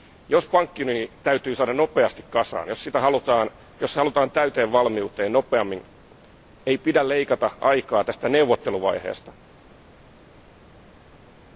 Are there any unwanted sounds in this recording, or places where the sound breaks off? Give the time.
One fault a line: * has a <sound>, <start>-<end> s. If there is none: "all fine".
all fine